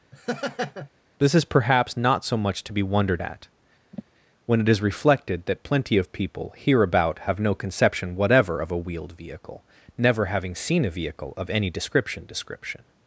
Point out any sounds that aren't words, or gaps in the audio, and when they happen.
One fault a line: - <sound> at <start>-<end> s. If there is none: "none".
- laugh at 0.1-0.9 s
- sigh at 3.9-4.0 s